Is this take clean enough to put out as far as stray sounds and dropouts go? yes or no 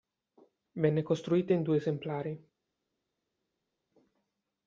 yes